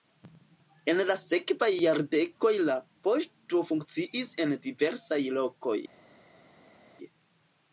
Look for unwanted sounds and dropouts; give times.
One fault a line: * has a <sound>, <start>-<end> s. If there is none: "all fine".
all fine